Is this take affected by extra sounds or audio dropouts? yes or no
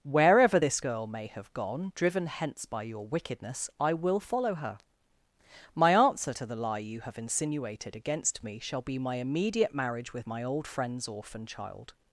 no